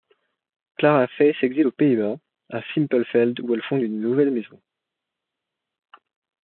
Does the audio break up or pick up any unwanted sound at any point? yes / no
no